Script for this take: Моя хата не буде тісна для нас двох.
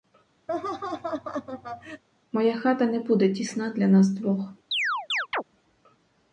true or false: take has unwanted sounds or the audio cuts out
true